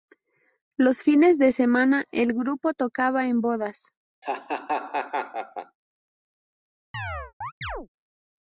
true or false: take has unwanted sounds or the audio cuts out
true